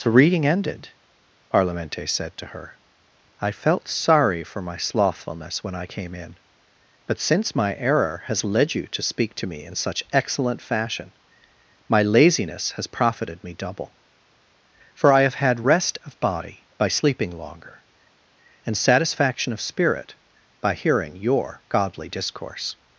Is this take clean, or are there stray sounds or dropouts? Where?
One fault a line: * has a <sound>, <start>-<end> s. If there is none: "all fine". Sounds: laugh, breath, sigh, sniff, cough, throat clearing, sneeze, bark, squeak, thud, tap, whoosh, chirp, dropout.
all fine